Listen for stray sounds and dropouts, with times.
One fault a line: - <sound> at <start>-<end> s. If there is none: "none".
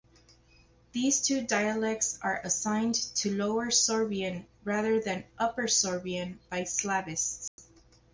- dropout at 7.5-7.6 s